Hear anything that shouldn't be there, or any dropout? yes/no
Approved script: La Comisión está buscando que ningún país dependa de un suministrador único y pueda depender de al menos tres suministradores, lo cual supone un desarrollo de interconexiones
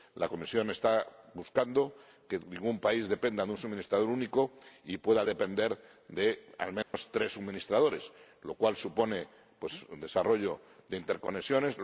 yes